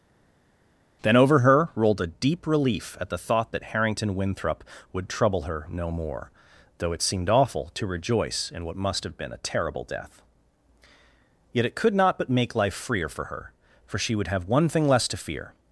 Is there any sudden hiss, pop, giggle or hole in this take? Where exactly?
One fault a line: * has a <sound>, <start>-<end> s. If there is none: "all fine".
all fine